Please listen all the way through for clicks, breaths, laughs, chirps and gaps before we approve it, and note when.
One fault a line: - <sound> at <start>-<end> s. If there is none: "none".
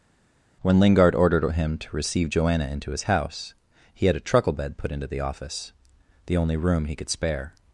none